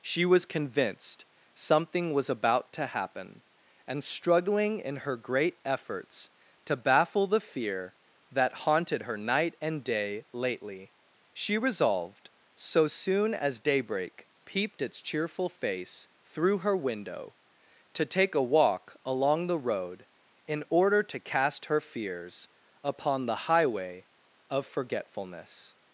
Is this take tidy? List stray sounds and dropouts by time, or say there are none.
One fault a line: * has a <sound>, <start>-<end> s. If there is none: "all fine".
all fine